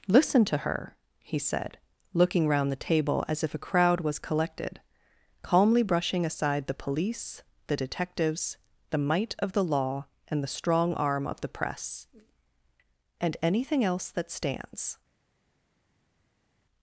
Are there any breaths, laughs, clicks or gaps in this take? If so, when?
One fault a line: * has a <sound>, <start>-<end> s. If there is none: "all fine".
all fine